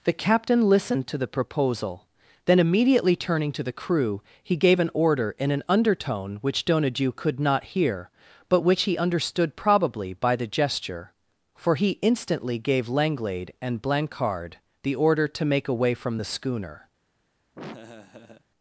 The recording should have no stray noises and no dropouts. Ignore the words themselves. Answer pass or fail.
fail